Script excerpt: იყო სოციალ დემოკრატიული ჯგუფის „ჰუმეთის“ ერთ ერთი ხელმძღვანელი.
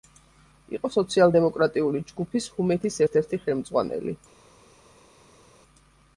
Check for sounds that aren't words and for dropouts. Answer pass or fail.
pass